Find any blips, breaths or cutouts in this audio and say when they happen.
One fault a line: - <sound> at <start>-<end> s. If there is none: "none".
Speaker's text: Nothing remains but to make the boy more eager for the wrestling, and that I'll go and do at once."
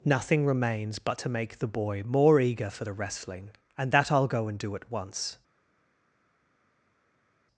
none